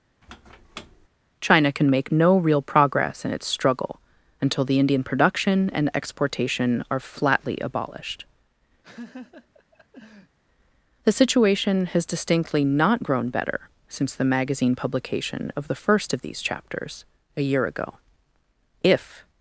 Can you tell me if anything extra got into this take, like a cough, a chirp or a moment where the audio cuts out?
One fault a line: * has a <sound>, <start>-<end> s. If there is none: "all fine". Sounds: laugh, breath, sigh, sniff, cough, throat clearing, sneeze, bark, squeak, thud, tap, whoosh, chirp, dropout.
* has a squeak, 0.2-1.1 s
* has a laugh, 8.8-10.4 s